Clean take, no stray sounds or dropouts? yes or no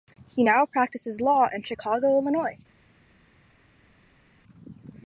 yes